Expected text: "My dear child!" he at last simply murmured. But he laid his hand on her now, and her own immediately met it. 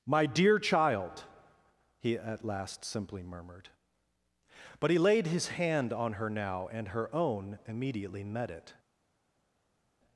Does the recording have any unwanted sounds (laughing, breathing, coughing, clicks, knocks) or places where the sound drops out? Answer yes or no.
no